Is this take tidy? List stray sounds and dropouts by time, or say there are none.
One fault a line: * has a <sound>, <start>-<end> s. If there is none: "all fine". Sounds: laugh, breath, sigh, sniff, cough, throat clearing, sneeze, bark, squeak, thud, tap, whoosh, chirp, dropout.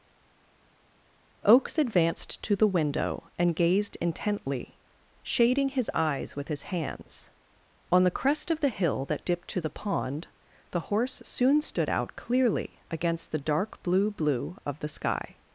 all fine